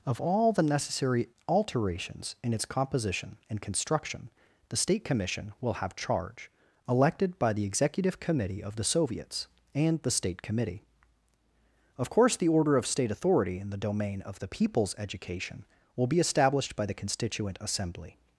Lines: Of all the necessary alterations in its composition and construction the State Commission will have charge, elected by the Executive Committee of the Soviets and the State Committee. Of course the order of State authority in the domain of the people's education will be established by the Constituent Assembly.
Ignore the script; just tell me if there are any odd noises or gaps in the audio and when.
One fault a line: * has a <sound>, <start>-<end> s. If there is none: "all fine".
all fine